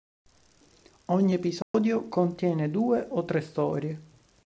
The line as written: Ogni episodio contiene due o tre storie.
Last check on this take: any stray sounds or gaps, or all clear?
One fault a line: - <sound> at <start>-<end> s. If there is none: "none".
- dropout at 1.6-1.7 s